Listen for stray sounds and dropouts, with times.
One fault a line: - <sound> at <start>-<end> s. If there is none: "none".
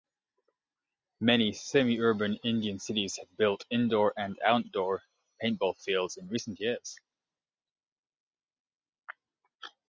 none